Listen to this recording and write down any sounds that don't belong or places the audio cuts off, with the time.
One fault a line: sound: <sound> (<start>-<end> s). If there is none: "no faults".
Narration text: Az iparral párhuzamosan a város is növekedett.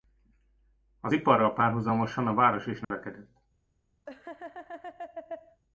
sound: dropout (2.8-2.9 s)
sound: laugh (4.1-5.6 s)